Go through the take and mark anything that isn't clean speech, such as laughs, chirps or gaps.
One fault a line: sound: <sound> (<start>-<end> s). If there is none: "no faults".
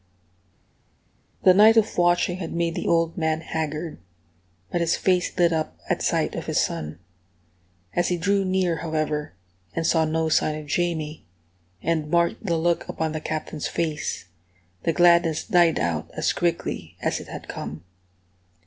no faults